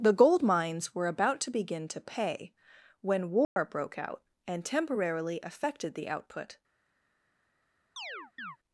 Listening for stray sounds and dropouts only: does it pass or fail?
fail